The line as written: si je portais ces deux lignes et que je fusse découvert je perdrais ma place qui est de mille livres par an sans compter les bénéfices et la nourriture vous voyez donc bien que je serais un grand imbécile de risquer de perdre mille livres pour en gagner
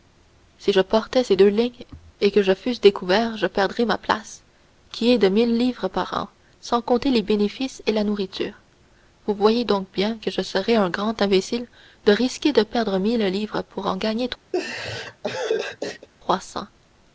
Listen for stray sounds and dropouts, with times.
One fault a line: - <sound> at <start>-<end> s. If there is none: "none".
- laugh at 14.5-16.1 s